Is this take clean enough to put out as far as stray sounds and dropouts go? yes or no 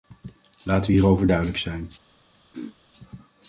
no